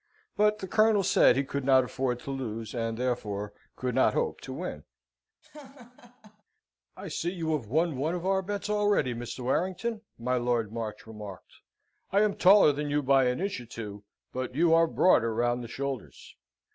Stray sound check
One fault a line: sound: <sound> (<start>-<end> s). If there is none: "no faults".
sound: laugh (5.4-6.4 s)